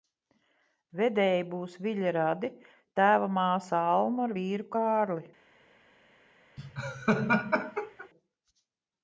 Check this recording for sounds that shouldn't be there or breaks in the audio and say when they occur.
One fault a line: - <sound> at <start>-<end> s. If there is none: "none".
- laugh at 6.6-8.1 s